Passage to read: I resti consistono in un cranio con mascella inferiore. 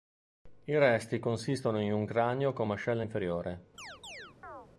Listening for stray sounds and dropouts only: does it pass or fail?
fail